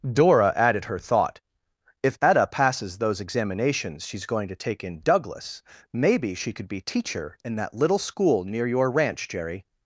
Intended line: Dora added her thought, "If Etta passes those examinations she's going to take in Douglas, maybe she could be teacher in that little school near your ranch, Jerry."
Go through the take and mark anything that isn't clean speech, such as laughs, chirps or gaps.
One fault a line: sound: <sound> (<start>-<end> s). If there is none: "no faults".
no faults